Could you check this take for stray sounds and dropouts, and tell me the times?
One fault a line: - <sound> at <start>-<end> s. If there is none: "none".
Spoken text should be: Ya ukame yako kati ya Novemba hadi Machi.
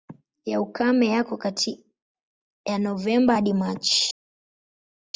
none